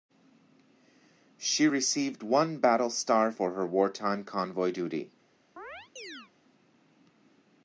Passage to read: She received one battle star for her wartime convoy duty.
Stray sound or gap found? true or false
true